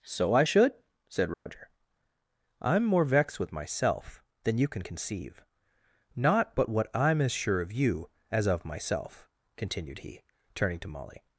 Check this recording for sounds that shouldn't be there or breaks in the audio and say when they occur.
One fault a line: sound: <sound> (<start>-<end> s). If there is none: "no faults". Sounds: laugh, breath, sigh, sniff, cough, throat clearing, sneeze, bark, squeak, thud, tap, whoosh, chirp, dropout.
sound: dropout (1.3-1.5 s)